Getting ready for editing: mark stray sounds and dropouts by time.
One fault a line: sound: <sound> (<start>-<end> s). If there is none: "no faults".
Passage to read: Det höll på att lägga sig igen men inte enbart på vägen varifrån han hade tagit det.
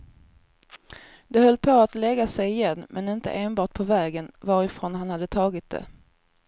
no faults